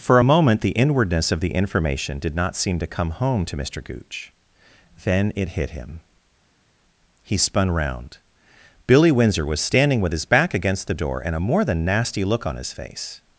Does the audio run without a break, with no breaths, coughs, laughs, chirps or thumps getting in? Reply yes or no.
yes